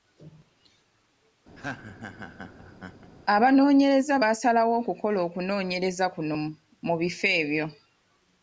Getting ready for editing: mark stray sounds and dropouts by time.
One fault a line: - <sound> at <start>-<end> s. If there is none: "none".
- laugh at 1.6-3.1 s